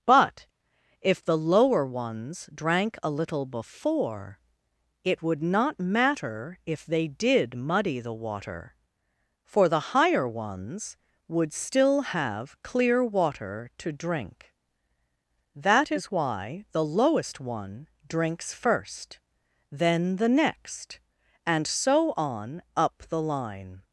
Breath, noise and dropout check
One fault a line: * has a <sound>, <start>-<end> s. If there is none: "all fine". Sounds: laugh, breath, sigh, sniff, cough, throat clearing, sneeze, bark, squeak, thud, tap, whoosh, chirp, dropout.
all fine